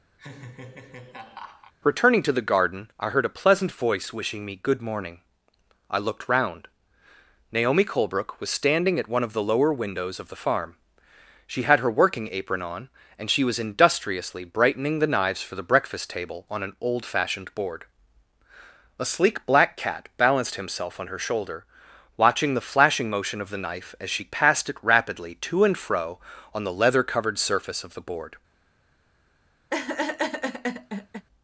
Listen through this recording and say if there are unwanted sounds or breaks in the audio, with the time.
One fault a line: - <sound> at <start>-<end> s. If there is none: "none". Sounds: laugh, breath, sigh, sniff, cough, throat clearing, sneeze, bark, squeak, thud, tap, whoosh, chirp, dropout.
- laugh at 0.2-1.7 s
- laugh at 29.7-31.3 s